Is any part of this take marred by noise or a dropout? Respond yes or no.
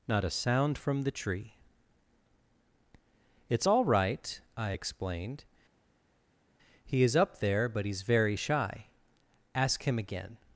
no